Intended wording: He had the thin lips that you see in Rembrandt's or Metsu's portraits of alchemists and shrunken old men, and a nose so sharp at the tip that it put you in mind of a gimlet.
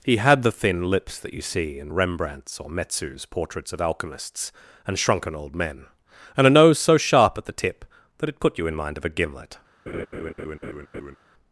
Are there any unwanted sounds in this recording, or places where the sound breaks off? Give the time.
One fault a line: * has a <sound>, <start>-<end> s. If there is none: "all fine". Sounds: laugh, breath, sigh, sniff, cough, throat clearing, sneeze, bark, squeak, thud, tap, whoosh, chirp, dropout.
* has a laugh, 9.9-11.2 s